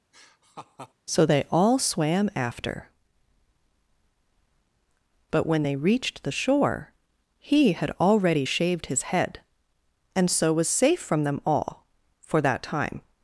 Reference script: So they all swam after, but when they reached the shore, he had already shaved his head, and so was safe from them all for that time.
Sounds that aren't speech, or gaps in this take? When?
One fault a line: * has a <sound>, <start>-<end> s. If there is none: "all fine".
* has a laugh, 0.1-0.9 s